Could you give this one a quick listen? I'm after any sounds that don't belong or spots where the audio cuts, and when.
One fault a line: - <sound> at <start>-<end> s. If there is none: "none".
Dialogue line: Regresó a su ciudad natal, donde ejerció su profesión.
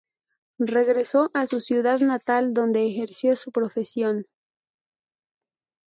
none